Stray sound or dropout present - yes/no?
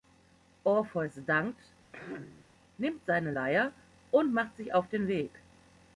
yes